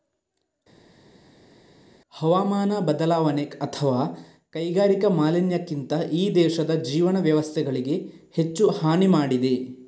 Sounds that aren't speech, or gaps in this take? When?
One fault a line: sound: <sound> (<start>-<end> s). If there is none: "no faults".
no faults